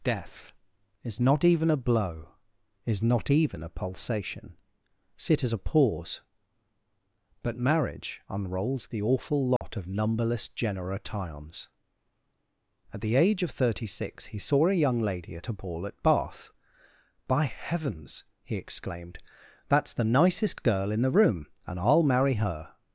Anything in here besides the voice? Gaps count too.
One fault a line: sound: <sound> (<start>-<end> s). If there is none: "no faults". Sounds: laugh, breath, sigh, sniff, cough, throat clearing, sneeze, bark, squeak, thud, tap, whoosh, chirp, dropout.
sound: dropout (9.6-9.6 s)